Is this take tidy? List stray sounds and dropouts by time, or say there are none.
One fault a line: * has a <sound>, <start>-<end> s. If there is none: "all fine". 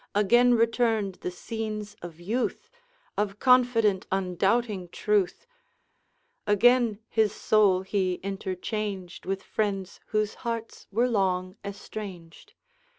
all fine